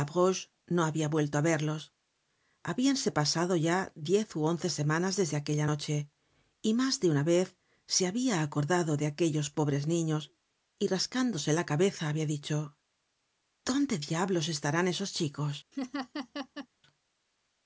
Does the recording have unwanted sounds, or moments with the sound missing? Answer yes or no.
yes